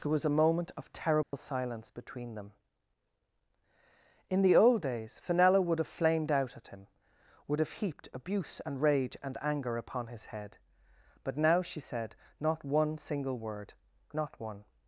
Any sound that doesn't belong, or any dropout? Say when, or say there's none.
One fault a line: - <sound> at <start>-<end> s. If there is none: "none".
- dropout at 1.2-1.3 s